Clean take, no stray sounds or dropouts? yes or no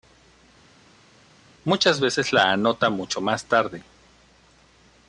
yes